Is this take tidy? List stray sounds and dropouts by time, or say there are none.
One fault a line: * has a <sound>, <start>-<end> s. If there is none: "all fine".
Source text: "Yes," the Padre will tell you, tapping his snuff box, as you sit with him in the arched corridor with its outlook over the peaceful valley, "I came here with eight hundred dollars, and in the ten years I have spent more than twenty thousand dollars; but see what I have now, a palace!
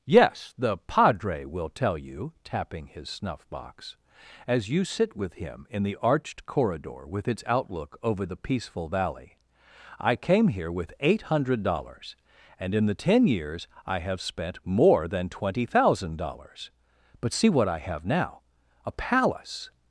all fine